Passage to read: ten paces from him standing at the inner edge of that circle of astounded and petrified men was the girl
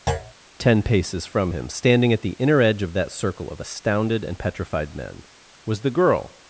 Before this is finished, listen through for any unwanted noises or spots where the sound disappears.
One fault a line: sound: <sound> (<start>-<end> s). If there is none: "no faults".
sound: thud (0.1-0.3 s)